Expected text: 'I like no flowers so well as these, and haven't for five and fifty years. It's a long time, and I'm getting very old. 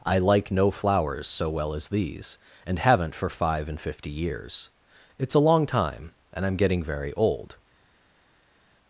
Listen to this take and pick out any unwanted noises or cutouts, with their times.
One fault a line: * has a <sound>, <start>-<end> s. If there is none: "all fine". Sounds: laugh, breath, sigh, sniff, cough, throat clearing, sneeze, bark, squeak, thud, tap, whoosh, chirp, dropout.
all fine